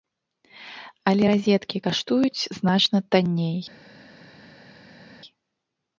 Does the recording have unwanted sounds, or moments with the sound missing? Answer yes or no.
no